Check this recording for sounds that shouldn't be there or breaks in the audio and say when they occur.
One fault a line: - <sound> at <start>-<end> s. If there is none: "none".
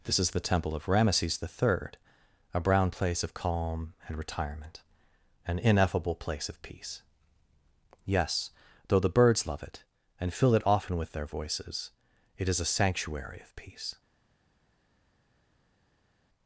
none